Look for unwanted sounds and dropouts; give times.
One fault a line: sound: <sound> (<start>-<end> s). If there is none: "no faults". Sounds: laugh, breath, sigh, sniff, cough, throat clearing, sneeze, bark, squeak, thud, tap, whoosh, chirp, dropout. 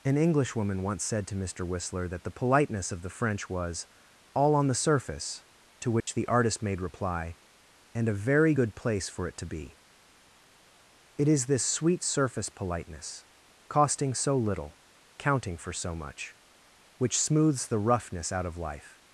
sound: dropout (6.0-6.1 s)